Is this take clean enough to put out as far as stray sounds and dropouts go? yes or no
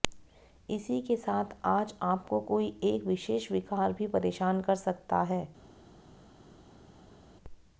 yes